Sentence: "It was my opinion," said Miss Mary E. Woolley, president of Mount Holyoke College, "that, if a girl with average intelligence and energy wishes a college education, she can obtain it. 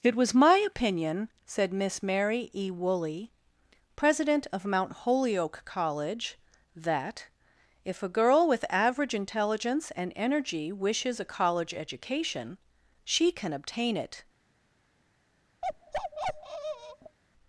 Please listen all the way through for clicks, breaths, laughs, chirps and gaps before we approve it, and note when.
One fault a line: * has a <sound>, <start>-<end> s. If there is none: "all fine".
* has a bark, 15.6-17.2 s